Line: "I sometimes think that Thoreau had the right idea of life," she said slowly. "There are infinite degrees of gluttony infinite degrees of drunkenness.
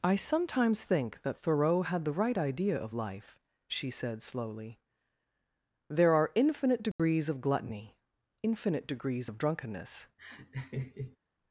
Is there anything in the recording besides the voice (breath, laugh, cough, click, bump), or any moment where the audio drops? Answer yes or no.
yes